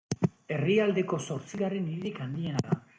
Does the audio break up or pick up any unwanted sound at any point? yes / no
no